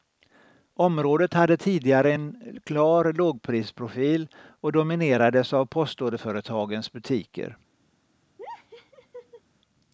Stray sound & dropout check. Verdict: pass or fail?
fail